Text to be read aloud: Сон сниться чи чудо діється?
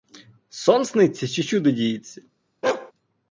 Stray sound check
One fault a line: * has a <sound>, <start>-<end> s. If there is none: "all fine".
* has a bark, 2.6-2.9 s